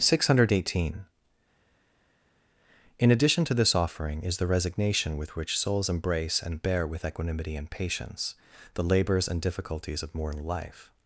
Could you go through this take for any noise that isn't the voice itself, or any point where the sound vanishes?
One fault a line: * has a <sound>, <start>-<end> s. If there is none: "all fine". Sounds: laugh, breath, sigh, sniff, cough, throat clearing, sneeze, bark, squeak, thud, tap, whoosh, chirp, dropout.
all fine